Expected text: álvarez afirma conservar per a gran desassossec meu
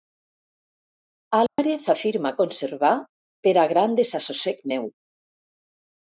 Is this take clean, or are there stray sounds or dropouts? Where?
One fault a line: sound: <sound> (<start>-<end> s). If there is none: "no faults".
sound: dropout (1.5-1.6 s)